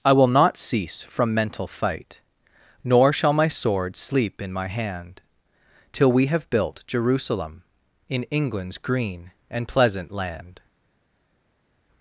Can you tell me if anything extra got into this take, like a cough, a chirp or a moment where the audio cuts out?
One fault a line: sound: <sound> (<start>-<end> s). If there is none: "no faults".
no faults